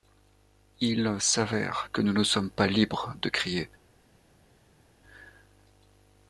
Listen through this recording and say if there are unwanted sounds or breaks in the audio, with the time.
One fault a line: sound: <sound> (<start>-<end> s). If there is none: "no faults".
no faults